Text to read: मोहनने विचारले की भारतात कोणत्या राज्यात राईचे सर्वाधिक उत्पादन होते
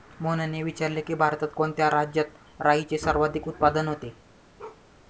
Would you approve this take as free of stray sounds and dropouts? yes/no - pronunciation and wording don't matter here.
no